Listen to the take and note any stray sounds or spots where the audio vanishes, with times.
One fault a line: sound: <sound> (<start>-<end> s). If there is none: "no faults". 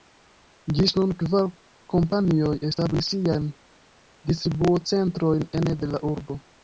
no faults